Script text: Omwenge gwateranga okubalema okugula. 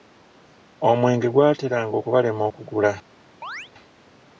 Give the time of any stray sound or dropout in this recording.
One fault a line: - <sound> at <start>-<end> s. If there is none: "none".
- chirp at 3.4-3.7 s